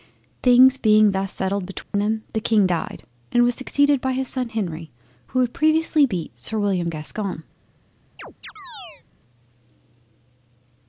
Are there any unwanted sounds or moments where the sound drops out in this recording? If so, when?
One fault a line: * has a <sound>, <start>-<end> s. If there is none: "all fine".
* has a dropout, 1.8-1.9 s
* has a chirp, 8.2-9.0 s